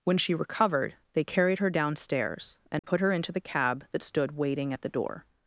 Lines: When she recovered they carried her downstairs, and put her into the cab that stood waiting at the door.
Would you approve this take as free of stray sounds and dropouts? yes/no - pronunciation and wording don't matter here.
no